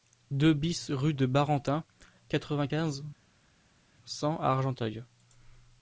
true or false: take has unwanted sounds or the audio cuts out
false